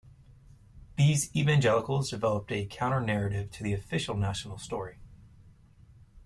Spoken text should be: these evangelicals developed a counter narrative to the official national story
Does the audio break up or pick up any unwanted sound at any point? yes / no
no